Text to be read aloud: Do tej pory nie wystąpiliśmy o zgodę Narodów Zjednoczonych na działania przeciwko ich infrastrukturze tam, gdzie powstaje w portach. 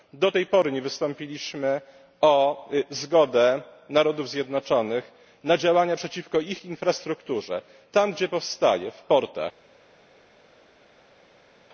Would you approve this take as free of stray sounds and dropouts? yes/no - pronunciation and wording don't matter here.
yes